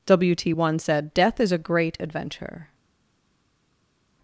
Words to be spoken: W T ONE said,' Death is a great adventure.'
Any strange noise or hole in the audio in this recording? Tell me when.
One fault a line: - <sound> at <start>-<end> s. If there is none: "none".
none